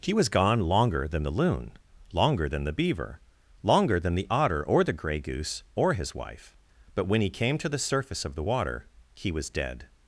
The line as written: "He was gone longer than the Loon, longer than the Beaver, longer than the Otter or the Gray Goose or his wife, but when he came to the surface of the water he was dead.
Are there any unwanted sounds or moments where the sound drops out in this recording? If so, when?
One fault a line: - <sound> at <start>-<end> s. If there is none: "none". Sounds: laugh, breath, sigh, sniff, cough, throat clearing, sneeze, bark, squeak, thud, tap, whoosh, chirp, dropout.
none